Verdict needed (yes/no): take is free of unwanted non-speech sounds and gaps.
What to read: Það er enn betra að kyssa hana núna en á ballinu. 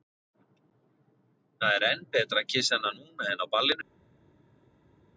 yes